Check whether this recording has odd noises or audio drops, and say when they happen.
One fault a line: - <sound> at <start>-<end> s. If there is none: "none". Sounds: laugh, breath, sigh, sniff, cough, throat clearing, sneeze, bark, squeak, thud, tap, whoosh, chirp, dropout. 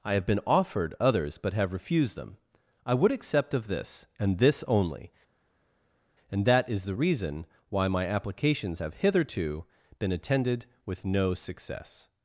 none